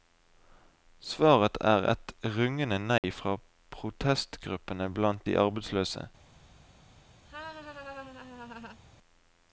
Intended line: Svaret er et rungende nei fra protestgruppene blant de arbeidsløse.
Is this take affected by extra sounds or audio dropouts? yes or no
yes